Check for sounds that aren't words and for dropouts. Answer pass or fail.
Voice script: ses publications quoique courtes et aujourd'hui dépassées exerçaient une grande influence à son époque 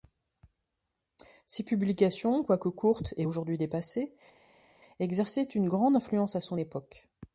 pass